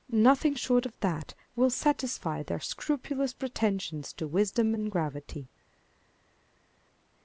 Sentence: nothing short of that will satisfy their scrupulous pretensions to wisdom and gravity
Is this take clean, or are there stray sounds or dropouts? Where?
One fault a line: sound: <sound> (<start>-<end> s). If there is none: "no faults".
no faults